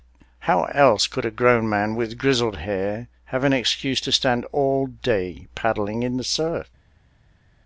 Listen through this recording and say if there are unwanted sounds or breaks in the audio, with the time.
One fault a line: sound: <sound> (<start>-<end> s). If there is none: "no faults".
no faults